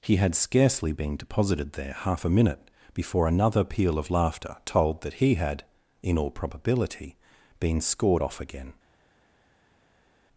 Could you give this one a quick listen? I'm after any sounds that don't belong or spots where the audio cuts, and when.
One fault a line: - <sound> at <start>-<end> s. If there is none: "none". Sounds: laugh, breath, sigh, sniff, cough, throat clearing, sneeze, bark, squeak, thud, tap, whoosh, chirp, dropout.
none